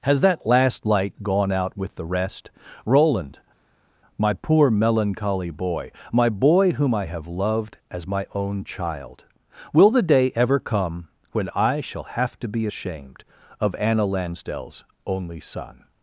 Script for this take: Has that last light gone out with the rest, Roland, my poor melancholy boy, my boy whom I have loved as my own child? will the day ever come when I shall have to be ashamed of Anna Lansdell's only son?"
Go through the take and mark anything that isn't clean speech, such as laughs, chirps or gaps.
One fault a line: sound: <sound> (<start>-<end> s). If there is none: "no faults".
no faults